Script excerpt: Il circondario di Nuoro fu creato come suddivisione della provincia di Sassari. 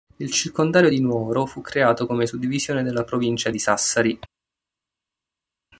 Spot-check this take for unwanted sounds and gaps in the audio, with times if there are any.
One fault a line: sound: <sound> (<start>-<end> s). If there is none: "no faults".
no faults